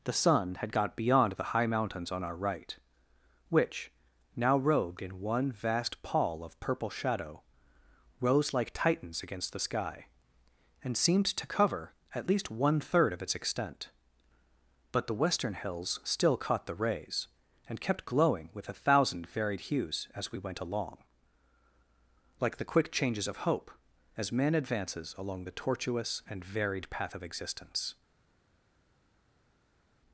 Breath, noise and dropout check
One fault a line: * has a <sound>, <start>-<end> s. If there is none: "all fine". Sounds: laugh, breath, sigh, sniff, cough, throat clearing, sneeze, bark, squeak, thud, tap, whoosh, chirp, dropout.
all fine